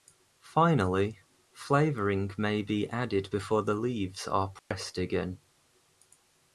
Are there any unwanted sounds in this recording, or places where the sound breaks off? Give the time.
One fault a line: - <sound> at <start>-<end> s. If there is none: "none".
- dropout at 4.6-4.7 s